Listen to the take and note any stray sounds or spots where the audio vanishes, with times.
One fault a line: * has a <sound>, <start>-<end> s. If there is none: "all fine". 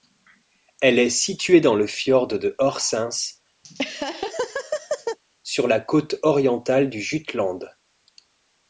* has a laugh, 3.6-5.2 s